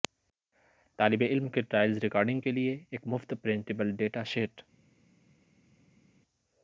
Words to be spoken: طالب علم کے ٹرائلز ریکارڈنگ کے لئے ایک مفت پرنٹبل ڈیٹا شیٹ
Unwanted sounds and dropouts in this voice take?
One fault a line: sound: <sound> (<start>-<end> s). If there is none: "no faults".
no faults